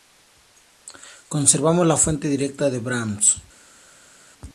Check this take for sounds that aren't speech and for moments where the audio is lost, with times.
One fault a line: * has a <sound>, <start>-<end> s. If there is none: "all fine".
all fine